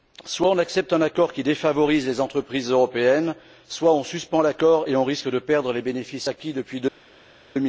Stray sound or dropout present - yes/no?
no